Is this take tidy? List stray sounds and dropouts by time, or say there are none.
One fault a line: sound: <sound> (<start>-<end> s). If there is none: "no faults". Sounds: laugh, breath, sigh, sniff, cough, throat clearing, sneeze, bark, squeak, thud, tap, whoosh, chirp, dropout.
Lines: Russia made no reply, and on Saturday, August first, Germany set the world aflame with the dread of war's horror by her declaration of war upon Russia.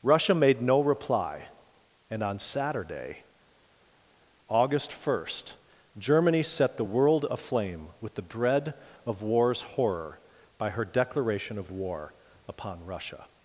no faults